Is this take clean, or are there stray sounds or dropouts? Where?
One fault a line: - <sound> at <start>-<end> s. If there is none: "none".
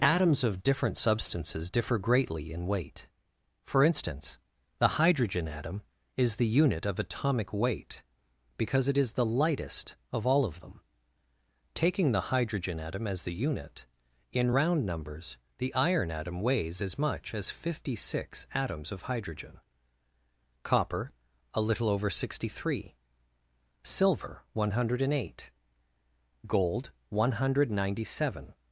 none